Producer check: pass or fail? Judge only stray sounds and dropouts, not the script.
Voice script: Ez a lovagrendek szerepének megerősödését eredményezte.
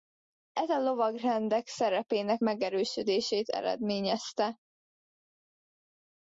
pass